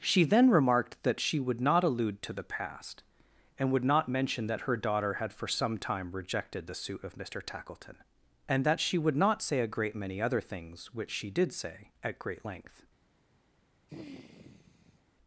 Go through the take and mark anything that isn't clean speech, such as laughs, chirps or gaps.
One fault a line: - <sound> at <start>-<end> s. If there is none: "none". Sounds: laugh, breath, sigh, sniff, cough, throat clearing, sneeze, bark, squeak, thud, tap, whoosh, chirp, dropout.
- sigh at 13.9-15.0 s